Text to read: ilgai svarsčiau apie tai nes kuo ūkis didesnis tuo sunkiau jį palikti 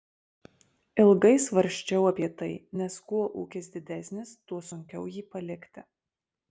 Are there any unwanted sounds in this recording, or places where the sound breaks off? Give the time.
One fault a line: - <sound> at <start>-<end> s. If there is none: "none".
none